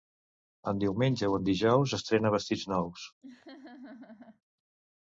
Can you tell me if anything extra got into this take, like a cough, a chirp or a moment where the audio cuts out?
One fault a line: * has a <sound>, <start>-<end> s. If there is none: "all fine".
* has a laugh, 3.2-4.4 s